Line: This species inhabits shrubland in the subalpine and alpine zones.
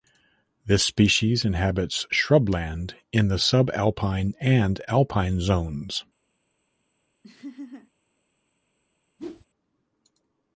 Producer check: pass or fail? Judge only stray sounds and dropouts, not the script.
fail